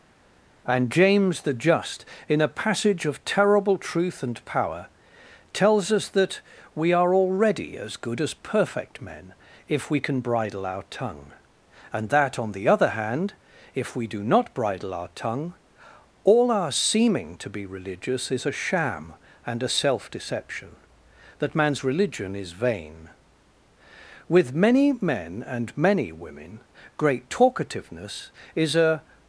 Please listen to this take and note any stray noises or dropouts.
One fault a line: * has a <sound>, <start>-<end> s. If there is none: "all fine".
all fine